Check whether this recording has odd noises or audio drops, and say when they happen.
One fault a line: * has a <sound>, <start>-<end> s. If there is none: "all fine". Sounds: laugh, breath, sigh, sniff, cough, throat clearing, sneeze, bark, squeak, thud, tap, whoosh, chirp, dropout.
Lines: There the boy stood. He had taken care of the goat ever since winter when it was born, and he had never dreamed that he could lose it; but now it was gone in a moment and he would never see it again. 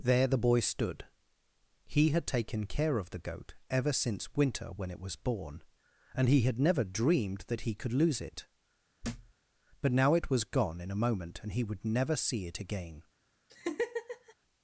* has a thud, 9.0-9.3 s
* has a laugh, 13.5-14.3 s